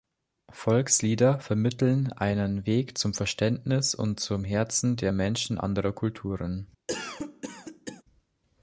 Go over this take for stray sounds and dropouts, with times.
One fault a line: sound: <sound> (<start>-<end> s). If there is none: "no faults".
sound: cough (6.9-8.0 s)